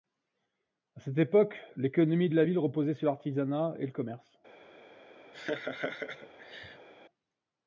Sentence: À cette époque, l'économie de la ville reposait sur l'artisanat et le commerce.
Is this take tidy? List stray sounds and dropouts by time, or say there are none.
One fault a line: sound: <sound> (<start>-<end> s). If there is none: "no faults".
sound: laugh (5.3-6.9 s)